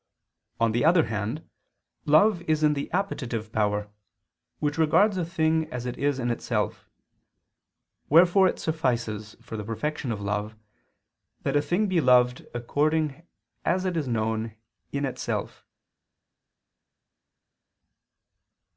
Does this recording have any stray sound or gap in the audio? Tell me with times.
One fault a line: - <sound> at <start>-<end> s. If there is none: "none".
none